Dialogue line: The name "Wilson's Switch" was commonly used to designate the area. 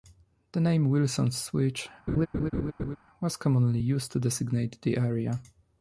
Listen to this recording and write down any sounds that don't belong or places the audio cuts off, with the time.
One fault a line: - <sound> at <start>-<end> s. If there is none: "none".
- laugh at 2.1-3.0 s